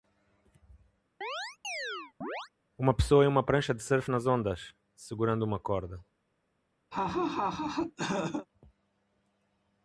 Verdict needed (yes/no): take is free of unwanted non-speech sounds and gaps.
no